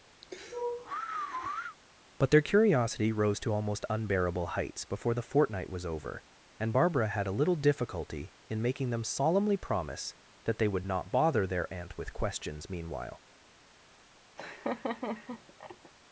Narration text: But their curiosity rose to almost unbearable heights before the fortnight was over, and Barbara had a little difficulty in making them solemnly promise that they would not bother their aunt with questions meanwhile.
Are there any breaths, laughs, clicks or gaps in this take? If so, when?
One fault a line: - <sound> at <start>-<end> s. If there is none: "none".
- sigh at 0.2-1.8 s
- laugh at 14.4-15.9 s